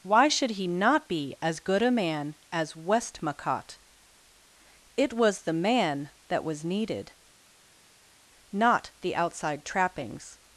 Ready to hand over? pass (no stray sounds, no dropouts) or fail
pass